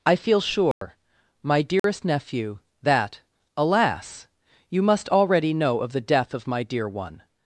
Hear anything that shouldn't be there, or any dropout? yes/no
yes